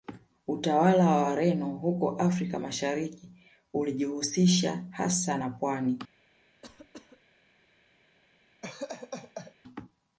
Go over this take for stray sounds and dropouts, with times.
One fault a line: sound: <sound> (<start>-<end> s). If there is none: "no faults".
sound: cough (6.6-7.2 s)
sound: laugh (8.6-9.5 s)